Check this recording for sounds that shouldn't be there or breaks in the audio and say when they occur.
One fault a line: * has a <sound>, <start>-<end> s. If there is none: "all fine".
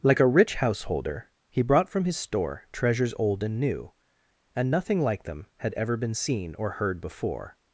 all fine